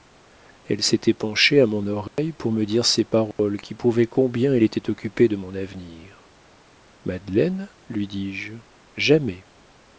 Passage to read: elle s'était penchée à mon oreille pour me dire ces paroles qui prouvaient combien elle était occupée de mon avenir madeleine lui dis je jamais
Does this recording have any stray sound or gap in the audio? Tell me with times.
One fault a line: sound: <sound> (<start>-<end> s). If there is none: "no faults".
sound: dropout (2.1-2.2 s)
sound: dropout (3.3-3.4 s)